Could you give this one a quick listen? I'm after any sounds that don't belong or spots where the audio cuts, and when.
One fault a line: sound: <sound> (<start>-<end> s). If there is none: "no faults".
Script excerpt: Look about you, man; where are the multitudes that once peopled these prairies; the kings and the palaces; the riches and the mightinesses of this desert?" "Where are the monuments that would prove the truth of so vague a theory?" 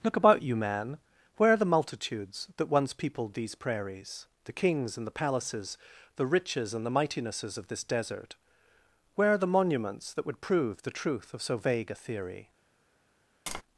sound: tap (13.5-13.6 s)